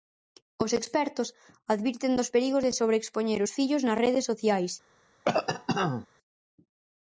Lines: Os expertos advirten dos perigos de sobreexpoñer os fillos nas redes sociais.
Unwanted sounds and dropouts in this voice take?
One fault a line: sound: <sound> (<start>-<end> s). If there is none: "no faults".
sound: cough (5.2-6.1 s)